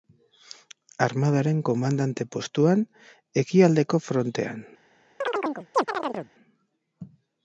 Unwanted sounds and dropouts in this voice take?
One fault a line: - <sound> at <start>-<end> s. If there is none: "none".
- chirp at 5.2-6.3 s